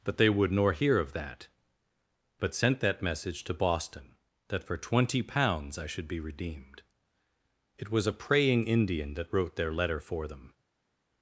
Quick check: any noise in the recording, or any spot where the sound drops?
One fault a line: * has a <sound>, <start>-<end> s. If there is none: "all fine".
all fine